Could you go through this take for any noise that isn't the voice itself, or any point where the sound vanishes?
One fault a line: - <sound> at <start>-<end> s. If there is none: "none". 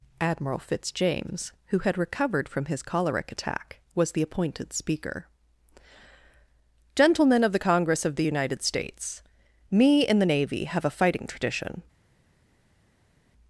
none